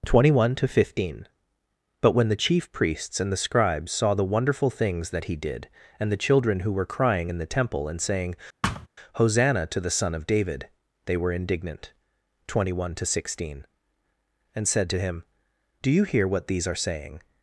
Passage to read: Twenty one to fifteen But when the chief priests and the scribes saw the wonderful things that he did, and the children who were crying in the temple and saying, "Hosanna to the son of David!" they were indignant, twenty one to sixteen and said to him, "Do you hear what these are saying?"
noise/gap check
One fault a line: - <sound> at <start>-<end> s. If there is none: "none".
- thud at 8.6-8.9 s